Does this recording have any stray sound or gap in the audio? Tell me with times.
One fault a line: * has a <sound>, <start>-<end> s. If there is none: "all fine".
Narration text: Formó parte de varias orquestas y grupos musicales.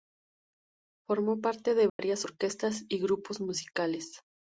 * has a dropout, 1.9-2.0 s